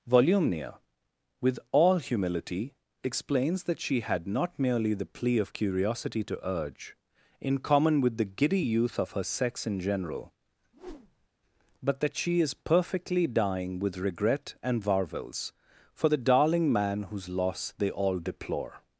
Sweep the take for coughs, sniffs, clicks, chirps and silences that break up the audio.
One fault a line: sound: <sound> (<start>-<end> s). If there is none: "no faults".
sound: whoosh (10.7-11.3 s)